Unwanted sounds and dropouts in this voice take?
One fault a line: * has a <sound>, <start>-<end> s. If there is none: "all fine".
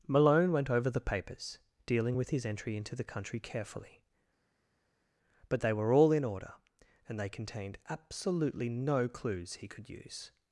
all fine